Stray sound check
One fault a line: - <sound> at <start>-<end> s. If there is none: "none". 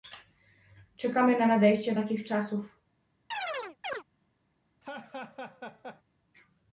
- chirp at 3.3-4.0 s
- laugh at 4.8-6.0 s